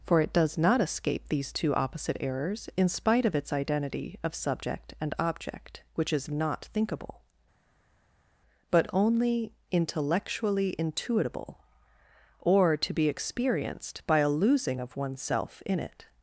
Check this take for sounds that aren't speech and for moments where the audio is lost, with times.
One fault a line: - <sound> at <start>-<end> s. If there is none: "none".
none